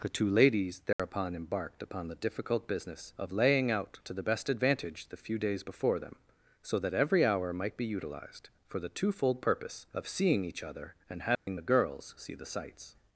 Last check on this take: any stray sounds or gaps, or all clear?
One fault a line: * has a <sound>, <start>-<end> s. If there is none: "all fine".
* has a dropout, 0.9-1.0 s
* has a dropout, 11.4-11.5 s